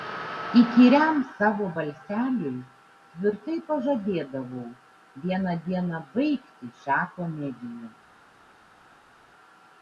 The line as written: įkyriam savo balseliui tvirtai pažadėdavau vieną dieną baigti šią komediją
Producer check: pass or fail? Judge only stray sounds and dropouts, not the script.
pass